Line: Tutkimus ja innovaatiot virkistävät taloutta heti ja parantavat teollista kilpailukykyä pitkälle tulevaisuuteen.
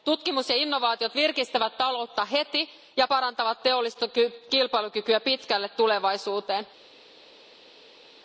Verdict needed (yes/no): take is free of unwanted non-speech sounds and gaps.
yes